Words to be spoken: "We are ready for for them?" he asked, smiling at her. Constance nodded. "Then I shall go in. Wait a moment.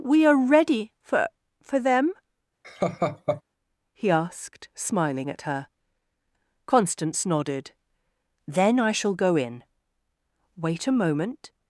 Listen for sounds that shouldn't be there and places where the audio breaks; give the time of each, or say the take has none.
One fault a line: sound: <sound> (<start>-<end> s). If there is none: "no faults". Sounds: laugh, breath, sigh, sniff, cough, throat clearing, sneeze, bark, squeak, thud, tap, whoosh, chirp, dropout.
sound: laugh (2.6-3.4 s)